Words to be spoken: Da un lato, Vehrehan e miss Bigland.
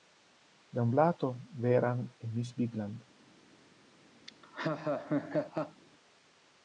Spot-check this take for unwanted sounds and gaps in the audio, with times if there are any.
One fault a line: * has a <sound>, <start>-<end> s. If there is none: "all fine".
* has a laugh, 4.3-5.8 s